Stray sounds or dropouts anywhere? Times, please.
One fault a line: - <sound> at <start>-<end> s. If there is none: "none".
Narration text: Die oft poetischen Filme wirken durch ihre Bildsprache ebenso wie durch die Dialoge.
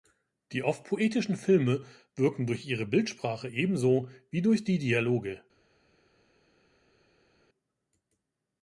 none